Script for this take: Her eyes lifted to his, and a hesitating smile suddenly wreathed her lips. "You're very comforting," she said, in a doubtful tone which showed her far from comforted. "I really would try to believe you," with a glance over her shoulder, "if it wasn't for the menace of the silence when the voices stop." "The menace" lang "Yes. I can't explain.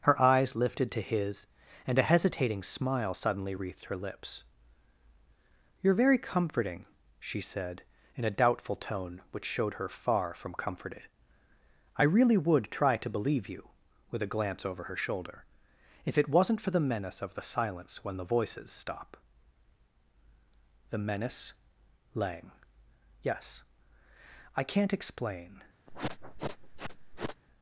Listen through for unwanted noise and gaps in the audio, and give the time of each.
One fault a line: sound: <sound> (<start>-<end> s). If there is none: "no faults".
sound: sniff (25.9-27.4 s)